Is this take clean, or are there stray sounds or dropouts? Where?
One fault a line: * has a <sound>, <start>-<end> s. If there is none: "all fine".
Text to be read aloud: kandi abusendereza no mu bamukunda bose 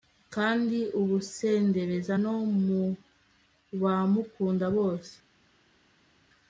all fine